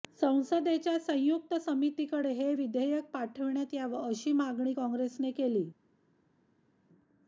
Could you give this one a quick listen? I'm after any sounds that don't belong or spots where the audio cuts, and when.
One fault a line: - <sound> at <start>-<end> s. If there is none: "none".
none